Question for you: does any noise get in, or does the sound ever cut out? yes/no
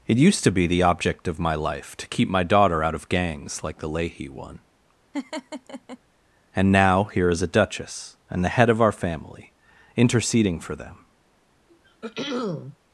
yes